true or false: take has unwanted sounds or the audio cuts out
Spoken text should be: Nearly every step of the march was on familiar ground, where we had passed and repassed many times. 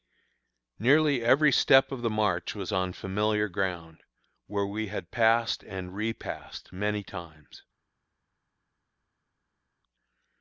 false